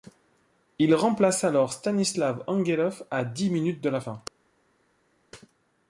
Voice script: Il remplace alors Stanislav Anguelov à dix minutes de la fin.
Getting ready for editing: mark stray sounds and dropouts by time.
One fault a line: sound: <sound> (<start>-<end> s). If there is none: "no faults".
no faults